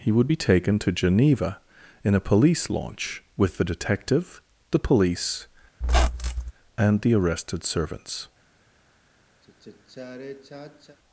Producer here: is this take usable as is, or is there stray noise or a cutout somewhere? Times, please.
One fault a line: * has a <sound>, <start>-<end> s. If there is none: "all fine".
* has a squeak, 5.8-6.5 s
* has a sigh, 9.4-11.0 s